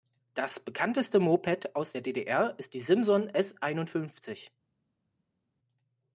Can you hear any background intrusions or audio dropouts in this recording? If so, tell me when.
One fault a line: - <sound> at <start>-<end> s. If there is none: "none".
none